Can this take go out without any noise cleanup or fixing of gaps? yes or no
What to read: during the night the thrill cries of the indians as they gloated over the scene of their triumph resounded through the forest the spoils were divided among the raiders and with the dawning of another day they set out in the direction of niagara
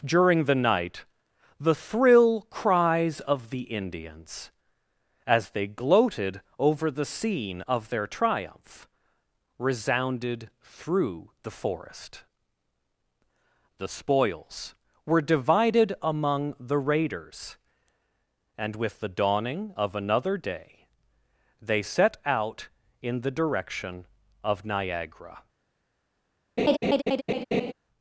no